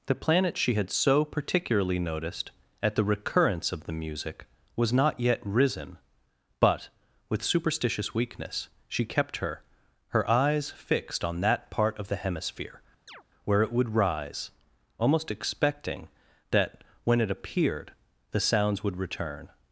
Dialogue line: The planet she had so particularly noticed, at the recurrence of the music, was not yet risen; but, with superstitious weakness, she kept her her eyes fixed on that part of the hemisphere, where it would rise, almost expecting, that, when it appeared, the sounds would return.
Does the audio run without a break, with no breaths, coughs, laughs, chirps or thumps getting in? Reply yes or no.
no